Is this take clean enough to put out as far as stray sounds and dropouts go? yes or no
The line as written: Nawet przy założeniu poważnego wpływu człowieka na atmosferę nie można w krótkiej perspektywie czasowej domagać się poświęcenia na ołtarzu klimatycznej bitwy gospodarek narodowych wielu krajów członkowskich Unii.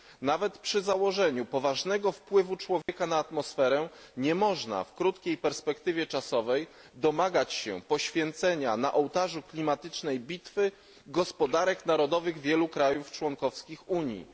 no